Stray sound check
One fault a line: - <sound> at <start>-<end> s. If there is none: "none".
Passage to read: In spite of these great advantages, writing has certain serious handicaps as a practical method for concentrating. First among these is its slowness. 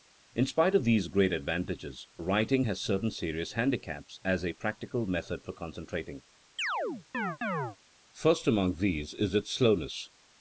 - chirp at 6.6-7.8 s